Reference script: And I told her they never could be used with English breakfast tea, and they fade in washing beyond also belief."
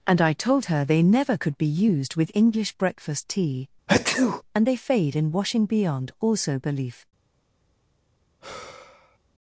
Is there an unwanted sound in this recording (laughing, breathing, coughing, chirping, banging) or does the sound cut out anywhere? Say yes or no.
yes